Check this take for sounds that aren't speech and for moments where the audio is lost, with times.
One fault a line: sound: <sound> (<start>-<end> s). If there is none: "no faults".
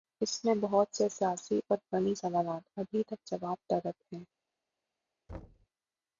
sound: thud (5.3-5.7 s)